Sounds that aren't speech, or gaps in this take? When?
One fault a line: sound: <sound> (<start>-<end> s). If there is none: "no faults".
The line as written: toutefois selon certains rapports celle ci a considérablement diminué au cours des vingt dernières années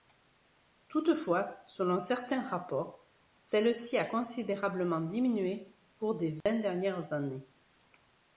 sound: dropout (6.4-6.5 s)